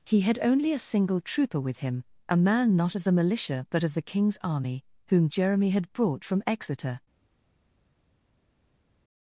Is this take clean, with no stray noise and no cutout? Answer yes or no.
yes